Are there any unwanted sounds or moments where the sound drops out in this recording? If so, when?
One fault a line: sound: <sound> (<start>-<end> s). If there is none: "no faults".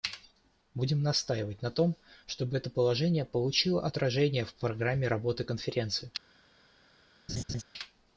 sound: laugh (7.3-7.6 s)